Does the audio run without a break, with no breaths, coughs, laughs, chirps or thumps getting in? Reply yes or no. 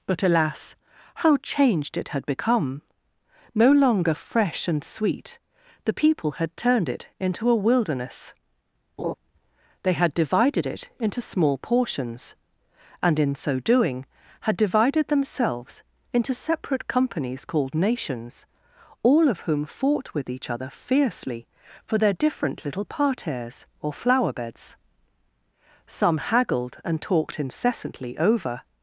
no